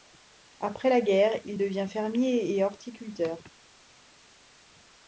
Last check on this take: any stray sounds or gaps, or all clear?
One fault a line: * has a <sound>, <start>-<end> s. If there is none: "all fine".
all fine